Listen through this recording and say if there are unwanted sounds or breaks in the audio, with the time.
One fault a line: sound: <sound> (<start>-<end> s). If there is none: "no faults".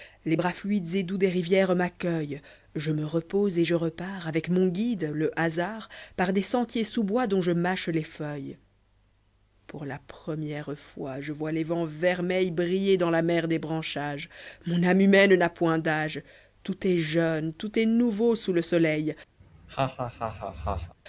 sound: laugh (19.4-20.9 s)